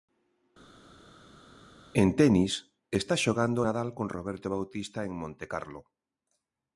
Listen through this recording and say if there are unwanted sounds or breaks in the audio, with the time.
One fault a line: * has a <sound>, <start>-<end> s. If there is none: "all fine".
all fine